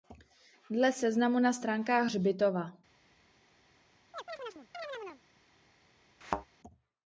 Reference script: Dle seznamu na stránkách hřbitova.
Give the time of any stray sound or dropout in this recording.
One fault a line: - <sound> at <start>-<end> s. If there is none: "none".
- chirp at 4.1-5.2 s
- thud at 6.2-6.5 s